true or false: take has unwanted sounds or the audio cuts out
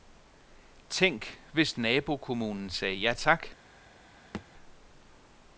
true